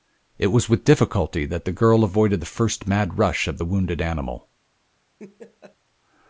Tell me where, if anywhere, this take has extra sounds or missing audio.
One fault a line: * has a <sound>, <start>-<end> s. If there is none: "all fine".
* has a laugh, 5.2-5.8 s